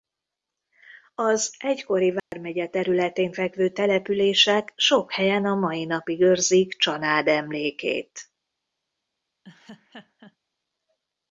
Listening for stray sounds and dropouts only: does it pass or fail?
fail